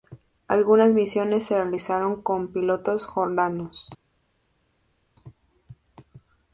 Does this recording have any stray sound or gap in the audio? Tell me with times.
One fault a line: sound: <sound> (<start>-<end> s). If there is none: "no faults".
no faults